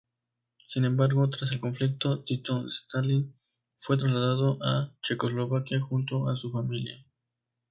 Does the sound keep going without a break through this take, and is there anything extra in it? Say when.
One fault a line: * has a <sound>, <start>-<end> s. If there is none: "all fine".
all fine